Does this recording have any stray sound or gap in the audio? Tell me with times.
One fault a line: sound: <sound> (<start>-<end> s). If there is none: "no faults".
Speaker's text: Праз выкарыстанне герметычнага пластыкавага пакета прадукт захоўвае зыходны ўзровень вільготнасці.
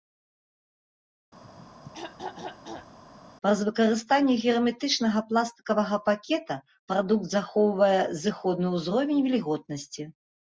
sound: throat clearing (1.4-3.0 s)